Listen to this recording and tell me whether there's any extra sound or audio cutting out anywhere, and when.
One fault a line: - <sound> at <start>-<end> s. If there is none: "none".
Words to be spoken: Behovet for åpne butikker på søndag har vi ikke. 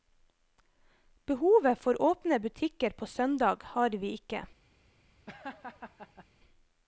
- laugh at 5.3-6.3 s